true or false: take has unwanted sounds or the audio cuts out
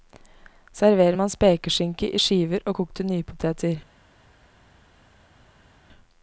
false